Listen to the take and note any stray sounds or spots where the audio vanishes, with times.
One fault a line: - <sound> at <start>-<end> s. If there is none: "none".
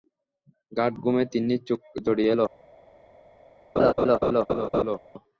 - laugh at 3.8-5.0 s